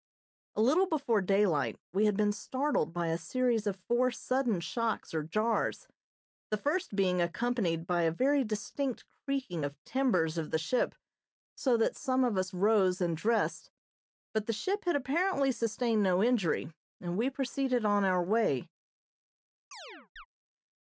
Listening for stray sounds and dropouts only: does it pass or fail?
fail